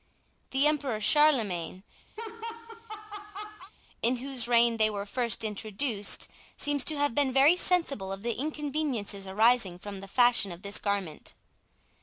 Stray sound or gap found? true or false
true